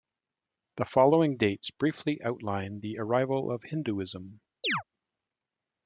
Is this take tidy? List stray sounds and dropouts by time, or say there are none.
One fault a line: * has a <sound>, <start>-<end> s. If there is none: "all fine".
* has a chirp, 4.6-4.8 s